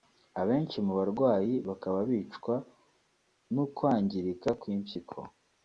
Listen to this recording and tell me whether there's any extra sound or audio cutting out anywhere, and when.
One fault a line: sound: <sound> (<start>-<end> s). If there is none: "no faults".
no faults